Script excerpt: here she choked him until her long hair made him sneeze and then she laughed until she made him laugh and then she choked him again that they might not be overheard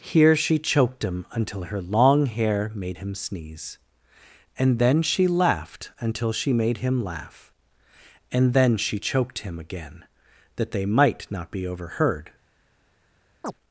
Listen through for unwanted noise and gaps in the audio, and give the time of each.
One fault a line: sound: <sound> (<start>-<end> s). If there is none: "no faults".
sound: chirp (13.4-13.5 s)